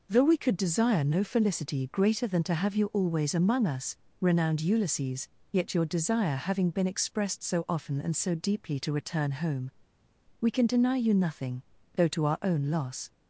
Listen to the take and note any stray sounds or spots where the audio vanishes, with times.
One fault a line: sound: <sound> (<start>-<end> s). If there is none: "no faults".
no faults